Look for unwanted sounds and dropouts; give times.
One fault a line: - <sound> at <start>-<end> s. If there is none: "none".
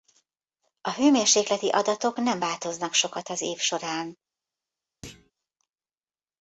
- thud at 5.0-5.3 s